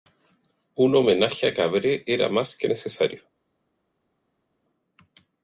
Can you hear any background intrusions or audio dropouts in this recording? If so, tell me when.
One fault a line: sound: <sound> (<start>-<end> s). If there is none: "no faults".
no faults